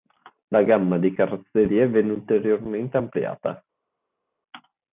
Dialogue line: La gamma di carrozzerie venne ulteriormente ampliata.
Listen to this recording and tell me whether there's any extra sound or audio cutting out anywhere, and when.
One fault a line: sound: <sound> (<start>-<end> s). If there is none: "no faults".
no faults